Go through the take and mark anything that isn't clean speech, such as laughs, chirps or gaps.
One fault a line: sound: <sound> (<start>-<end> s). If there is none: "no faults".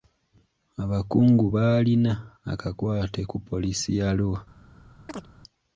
sound: chirp (5.1-5.3 s)